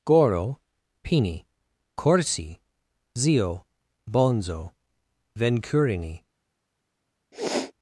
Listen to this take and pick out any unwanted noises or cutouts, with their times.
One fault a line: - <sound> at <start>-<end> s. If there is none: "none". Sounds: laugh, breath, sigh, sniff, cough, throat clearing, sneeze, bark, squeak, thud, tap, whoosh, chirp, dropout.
- sniff at 7.3-7.7 s